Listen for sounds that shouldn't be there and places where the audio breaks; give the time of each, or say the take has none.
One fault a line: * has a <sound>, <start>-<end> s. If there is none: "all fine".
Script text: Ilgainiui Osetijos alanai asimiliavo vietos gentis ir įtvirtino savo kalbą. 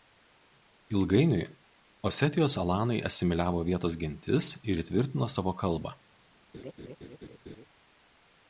* has a laugh, 6.5-7.7 s